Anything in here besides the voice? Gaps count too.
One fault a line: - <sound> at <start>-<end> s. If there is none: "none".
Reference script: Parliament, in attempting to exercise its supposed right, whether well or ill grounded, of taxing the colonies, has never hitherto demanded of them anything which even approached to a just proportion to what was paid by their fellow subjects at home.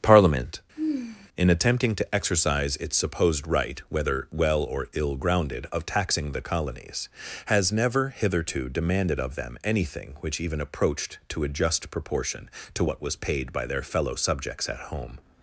- sigh at 0.8-1.3 s